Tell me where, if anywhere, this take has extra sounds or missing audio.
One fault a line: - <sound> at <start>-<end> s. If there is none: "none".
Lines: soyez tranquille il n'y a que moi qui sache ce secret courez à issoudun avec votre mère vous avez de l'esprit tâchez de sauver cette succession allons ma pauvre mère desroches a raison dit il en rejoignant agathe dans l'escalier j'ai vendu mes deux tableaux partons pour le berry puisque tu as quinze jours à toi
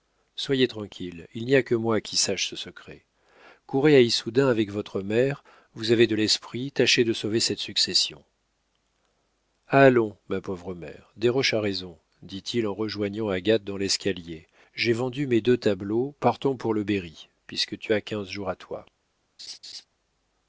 - laugh at 19.4-19.9 s